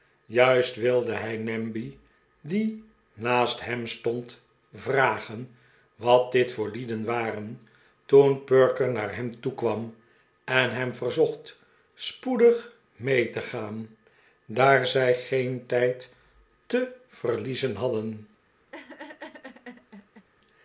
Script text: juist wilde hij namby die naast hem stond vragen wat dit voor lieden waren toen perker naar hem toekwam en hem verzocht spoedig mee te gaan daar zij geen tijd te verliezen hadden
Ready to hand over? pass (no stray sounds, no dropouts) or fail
fail